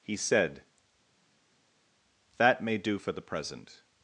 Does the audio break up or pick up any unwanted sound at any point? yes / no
no